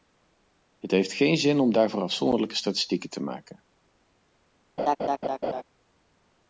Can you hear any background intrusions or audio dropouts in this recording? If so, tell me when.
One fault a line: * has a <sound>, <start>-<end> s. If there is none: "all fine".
* has a laugh, 4.8-5.6 s